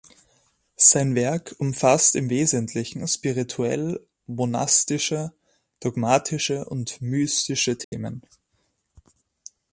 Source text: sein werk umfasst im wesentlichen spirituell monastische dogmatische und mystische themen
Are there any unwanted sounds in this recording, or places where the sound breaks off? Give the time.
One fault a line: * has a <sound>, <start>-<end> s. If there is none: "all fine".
* has a dropout, 7.8-7.9 s